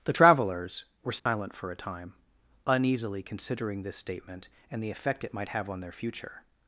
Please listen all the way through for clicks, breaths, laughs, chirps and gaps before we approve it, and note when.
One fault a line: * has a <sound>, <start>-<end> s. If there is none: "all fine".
* has a dropout, 1.2-1.3 s